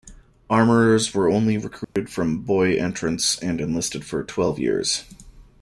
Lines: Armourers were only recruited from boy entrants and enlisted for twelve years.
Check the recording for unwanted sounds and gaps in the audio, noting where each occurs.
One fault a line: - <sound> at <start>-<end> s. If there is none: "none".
- dropout at 1.8-2.0 s